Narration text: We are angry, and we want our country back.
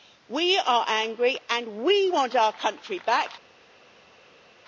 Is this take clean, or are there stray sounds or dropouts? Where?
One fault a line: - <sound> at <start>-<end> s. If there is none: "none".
none